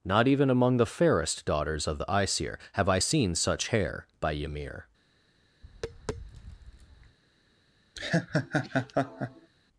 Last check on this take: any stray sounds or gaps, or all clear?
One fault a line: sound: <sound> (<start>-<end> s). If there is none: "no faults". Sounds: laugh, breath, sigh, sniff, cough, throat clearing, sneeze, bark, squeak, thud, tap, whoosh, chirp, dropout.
sound: tap (5.6-7.2 s)
sound: laugh (8.0-9.5 s)